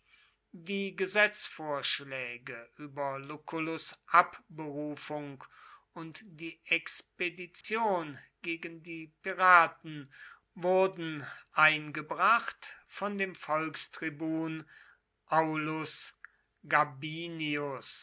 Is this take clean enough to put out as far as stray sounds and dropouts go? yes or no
no